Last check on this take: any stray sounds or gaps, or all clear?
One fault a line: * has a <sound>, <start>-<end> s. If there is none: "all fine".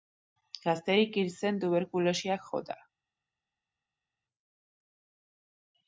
all fine